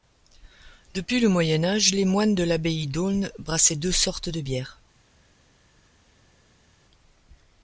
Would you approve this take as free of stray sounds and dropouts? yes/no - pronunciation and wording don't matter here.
yes